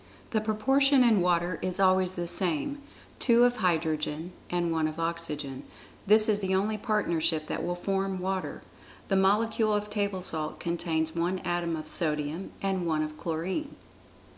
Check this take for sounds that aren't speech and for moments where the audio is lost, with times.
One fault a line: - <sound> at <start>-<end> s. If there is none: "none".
none